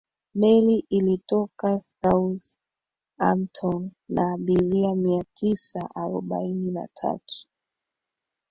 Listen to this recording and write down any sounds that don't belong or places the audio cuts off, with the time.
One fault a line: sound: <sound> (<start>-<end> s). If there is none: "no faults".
no faults